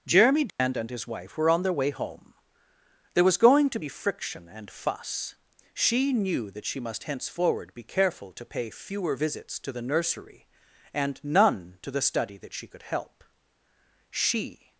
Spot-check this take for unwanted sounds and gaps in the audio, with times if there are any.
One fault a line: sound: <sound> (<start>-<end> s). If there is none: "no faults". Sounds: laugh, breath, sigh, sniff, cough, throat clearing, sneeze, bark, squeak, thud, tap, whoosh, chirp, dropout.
sound: dropout (0.5-0.6 s)